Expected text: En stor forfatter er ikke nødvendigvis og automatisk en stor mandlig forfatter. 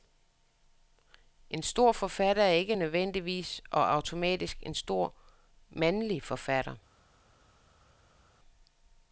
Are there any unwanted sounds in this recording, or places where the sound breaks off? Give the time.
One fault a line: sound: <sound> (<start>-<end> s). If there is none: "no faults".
no faults